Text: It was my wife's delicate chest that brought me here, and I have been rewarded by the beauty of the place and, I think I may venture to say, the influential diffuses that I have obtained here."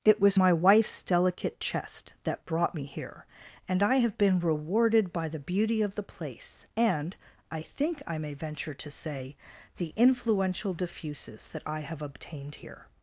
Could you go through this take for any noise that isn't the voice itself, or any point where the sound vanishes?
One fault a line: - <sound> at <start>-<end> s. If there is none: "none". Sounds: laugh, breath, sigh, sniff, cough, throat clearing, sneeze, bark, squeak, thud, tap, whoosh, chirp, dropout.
none